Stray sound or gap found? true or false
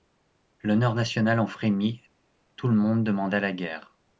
false